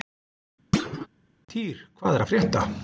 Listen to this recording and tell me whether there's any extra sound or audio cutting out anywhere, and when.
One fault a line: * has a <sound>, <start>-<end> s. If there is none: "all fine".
* has a thud, 0.7-1.1 s